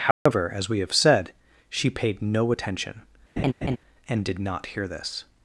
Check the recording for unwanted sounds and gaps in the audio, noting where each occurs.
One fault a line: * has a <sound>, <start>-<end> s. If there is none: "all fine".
* has a dropout, 0.1-0.3 s
* has a laugh, 3.4-3.8 s